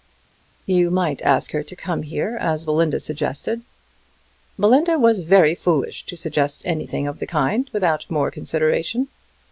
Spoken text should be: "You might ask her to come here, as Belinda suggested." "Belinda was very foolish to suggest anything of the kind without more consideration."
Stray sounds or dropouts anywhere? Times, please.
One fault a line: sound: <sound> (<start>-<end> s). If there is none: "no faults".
no faults